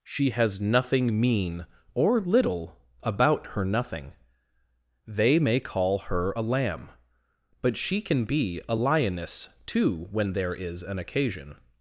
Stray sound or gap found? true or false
false